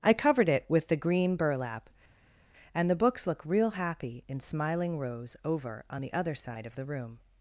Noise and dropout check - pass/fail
pass